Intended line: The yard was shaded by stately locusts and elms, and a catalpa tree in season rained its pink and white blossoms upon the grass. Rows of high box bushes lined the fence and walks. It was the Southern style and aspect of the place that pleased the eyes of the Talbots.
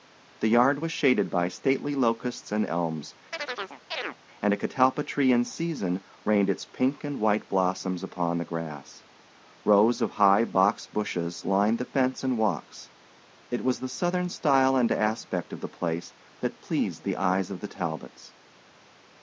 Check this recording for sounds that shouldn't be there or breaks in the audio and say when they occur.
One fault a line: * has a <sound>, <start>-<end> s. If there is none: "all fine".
* has a chirp, 3.3-4.2 s